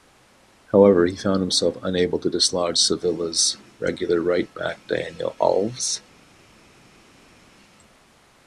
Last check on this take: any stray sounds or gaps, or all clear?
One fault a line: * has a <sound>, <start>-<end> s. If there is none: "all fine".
all fine